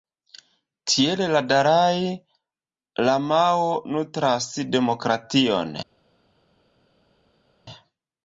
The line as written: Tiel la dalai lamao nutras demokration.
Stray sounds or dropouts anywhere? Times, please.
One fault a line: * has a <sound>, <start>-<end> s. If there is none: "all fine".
all fine